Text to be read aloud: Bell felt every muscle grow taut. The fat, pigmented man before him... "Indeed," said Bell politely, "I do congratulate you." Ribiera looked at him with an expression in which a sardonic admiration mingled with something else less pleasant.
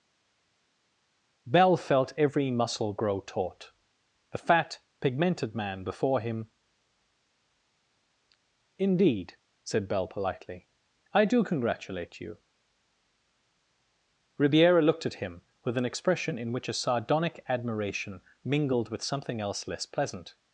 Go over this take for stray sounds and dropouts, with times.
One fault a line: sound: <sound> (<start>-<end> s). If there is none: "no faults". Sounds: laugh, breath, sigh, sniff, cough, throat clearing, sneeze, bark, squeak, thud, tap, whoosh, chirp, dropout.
no faults